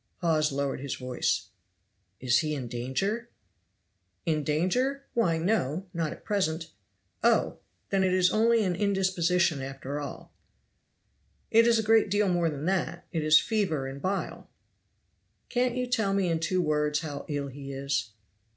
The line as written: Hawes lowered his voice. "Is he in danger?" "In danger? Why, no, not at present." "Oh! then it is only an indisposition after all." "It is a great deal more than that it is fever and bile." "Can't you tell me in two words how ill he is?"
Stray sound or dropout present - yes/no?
no